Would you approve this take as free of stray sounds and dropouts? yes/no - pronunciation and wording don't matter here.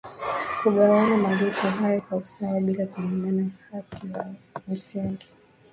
yes